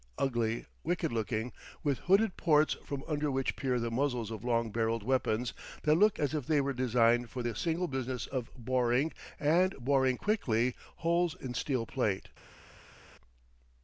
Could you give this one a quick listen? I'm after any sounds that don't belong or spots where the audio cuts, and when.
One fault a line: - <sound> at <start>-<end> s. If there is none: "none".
none